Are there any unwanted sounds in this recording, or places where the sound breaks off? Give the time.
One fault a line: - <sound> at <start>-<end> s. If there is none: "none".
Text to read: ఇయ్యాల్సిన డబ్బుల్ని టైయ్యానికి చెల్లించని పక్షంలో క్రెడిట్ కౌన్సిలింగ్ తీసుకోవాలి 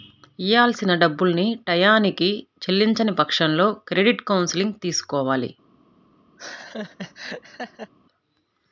- laugh at 6.4-7.9 s